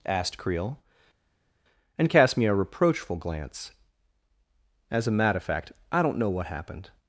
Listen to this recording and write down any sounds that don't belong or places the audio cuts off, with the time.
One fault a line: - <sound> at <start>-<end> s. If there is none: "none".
none